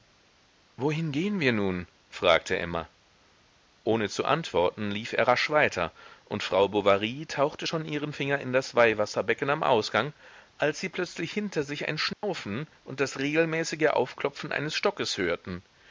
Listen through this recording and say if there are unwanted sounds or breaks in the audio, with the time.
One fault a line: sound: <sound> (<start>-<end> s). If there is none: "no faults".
sound: dropout (12.1-12.2 s)